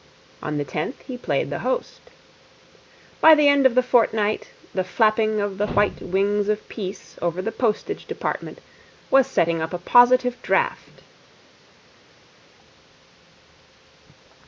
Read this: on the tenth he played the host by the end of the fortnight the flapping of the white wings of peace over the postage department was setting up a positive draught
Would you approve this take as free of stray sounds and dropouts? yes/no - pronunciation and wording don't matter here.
yes